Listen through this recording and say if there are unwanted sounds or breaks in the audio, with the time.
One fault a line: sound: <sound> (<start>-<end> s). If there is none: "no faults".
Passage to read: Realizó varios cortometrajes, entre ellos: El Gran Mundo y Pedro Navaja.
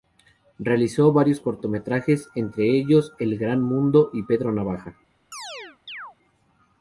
sound: chirp (5.3-6.2 s)